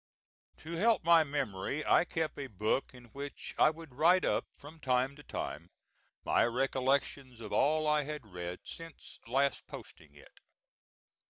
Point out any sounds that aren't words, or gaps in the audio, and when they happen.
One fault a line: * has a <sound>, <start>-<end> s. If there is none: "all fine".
all fine